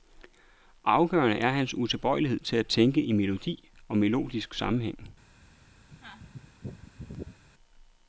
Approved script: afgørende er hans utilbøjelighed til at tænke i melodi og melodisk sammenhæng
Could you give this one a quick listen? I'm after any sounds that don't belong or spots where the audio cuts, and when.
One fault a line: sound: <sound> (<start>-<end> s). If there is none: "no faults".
sound: sneeze (5.9-7.4 s)